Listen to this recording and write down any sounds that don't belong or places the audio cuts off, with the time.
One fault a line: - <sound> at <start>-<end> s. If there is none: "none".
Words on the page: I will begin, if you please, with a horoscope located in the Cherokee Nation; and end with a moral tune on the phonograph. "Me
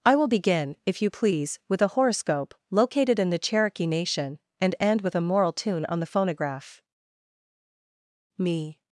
none